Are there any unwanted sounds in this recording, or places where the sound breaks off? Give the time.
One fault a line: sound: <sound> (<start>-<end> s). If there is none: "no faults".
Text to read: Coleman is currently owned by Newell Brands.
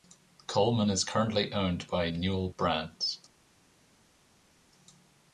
no faults